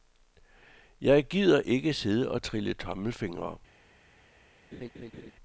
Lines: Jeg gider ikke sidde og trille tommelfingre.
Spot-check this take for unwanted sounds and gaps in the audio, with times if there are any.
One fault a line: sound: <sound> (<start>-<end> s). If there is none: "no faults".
sound: laugh (4.7-5.3 s)